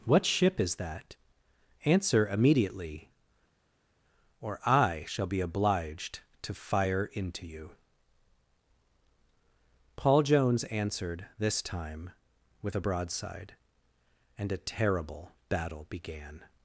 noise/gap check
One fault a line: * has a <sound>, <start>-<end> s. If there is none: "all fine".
all fine